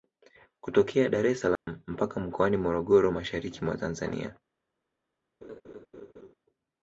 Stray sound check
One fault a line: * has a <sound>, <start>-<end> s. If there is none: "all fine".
* has a dropout, 1.6-1.7 s
* has a laugh, 5.4-6.3 s